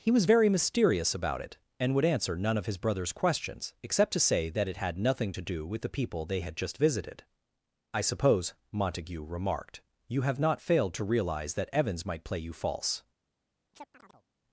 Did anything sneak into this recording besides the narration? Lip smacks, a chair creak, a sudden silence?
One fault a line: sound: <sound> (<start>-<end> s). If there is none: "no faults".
sound: chirp (13.7-14.3 s)